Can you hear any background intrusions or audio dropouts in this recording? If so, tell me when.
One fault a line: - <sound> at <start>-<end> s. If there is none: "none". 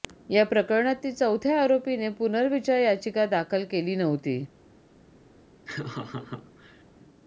- laugh at 5.6-6.8 s